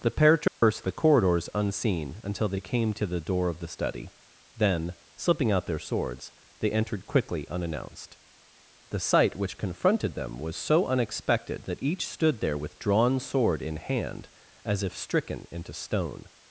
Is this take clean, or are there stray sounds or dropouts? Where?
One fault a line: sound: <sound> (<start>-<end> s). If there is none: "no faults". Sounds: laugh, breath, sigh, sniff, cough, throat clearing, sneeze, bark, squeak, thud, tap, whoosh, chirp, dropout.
sound: dropout (0.5-0.6 s)